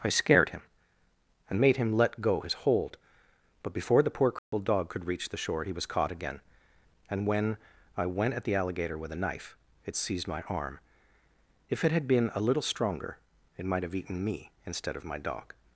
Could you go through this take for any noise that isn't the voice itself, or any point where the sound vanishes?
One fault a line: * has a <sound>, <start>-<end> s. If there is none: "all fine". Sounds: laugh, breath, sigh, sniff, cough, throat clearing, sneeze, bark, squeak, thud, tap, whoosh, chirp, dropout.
* has a dropout, 4.4-4.5 s